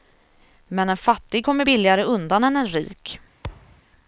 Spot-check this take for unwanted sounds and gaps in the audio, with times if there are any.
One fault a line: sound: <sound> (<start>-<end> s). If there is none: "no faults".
sound: thud (3.4-3.8 s)